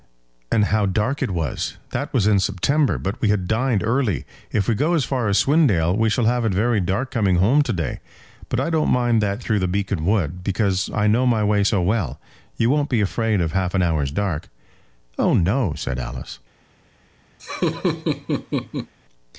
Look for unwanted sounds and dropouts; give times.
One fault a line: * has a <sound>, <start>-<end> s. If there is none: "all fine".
* has a laugh, 17.4-18.9 s